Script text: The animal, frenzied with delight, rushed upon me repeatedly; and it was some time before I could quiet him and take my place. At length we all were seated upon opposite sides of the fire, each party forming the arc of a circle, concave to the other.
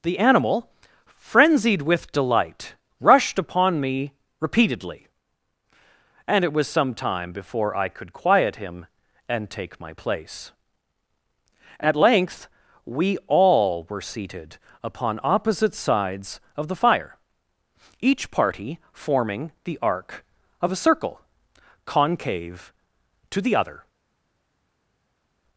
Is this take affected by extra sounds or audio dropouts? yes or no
no